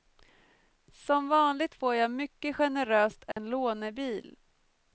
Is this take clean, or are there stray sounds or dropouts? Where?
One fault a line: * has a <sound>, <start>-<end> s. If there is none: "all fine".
* has a dropout, 3.3-3.4 s